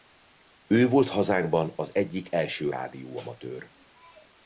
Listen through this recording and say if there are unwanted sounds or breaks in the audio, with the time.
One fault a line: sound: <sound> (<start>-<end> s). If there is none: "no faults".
no faults